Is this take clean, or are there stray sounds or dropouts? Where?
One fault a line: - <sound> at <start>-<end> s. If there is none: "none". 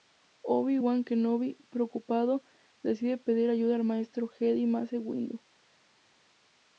none